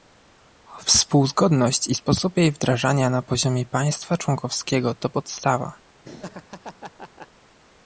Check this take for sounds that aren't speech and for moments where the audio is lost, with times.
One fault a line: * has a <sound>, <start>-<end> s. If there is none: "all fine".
* has a laugh, 6.0-7.3 s